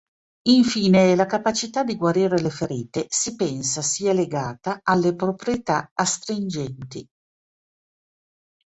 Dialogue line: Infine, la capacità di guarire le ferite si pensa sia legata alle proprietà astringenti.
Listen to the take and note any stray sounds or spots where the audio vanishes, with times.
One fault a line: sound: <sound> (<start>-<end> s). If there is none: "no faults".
no faults